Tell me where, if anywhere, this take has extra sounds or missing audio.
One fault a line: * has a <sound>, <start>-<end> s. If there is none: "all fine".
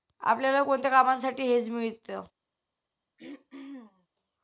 * has a throat clearing, 3.2-4.1 s